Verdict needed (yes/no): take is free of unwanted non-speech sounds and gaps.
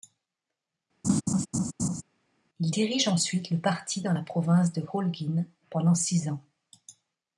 no